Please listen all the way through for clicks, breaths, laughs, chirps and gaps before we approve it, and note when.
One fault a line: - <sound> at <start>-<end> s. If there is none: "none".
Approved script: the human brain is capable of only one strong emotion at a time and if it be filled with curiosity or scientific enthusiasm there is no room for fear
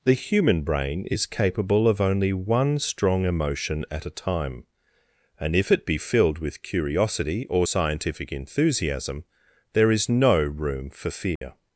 - dropout at 11.4-11.4 s